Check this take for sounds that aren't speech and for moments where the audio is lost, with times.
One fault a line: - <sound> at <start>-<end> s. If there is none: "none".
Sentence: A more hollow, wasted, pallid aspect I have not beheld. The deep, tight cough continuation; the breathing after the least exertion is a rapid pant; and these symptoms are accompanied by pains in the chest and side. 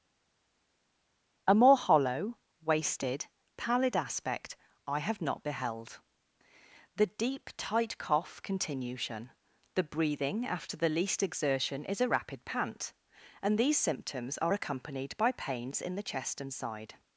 none